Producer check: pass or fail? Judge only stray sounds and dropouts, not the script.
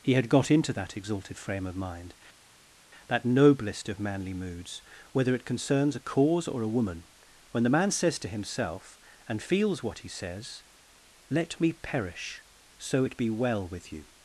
pass